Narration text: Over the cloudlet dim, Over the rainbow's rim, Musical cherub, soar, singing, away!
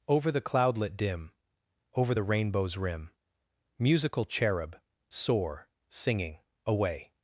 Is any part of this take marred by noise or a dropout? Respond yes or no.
no